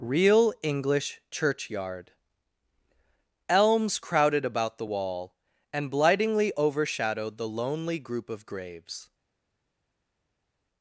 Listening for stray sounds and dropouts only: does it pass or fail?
pass